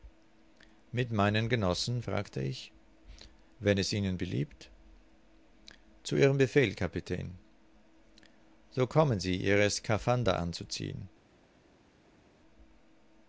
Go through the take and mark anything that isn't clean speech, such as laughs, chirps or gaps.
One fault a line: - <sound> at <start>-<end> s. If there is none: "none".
none